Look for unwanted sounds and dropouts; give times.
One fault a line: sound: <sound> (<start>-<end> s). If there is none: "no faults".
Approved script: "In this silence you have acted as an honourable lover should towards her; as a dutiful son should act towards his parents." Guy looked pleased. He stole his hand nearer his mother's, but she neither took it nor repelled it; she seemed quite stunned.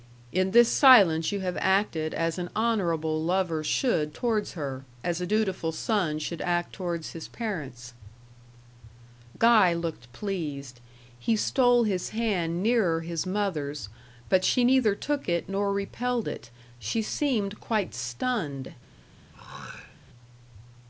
sound: throat clearing (19.3-20.0 s)